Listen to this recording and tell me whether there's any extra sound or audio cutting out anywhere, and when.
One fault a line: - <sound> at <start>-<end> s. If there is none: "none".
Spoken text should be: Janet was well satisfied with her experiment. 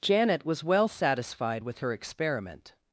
none